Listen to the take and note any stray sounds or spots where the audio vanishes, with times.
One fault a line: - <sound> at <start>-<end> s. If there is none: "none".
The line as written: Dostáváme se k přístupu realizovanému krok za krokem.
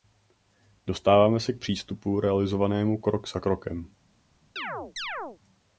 - chirp at 4.6-5.4 s